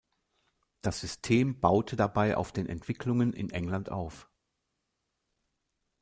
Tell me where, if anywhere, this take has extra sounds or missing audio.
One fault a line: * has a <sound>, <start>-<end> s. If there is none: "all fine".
all fine